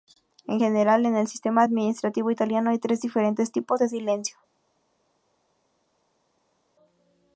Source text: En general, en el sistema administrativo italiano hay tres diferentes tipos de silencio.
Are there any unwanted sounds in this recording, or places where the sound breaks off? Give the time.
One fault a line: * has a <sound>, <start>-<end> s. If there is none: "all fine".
all fine